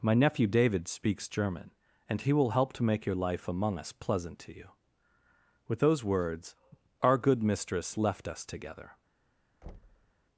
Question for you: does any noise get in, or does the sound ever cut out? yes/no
yes